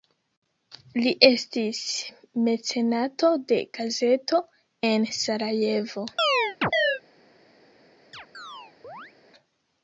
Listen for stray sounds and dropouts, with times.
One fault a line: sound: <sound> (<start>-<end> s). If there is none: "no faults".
sound: chirp (6.2-7.0 s)
sound: chirp (8.1-9.1 s)